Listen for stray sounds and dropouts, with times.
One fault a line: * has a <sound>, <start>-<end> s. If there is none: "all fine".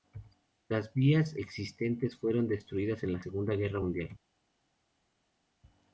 all fine